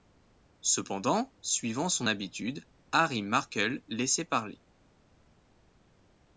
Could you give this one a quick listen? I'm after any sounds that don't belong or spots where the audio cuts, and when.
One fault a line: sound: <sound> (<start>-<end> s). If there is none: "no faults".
no faults